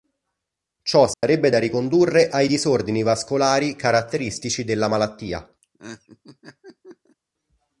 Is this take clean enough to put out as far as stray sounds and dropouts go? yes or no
no